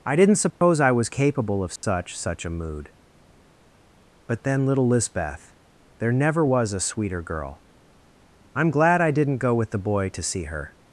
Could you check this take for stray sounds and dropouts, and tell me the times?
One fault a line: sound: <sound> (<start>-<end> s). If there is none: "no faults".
sound: dropout (0.5-0.6 s)
sound: dropout (1.8-1.8 s)